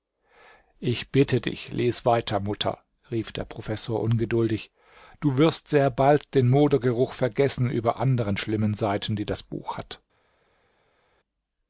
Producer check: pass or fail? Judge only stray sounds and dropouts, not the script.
pass